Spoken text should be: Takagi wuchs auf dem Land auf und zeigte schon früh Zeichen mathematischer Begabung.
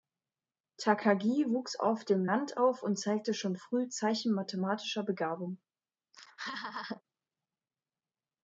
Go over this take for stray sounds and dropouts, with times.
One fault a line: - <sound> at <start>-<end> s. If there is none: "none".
- laugh at 6.1-7.0 s